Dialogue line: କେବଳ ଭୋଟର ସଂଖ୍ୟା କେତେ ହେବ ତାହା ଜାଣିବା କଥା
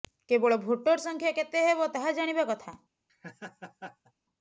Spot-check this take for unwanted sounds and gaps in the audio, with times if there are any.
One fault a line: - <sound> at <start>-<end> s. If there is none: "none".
- laugh at 3.1-4.1 s